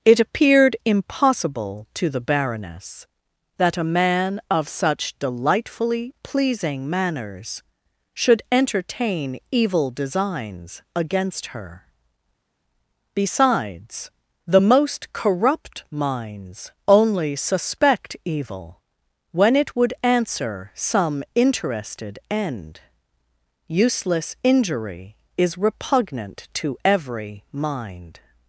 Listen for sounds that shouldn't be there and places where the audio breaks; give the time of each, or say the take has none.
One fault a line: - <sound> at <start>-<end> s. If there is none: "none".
none